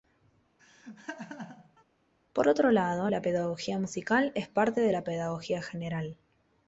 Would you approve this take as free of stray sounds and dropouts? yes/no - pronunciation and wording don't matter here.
no